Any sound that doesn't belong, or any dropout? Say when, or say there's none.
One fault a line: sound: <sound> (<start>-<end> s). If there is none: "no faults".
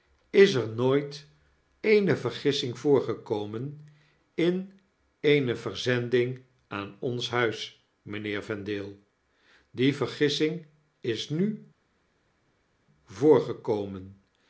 no faults